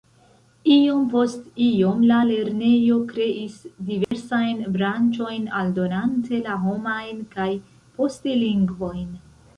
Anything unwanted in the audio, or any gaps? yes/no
yes